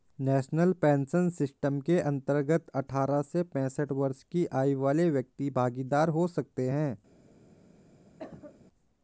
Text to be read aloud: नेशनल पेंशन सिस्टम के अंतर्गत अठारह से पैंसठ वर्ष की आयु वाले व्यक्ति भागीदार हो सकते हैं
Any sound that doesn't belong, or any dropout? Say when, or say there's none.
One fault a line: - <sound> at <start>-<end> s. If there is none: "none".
- cough at 8.2-8.7 s